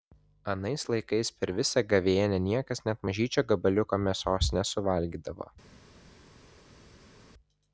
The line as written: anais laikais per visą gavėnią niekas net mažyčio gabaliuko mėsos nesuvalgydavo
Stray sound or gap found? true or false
false